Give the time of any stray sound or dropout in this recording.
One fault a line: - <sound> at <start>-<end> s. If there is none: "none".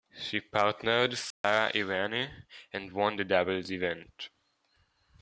- dropout at 1.3-1.4 s